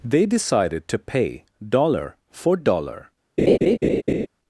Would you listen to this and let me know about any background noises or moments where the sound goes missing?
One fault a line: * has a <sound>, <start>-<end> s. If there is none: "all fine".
* has a laugh, 3.4-4.3 s